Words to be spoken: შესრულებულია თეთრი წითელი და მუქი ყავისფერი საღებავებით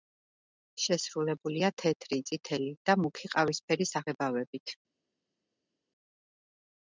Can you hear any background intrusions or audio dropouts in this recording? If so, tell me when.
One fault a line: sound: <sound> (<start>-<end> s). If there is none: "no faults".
no faults